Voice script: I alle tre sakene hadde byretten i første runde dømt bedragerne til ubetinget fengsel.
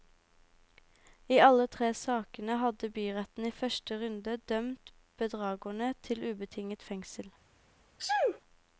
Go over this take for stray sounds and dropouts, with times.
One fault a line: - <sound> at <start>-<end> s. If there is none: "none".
- sneeze at 8.0-8.4 s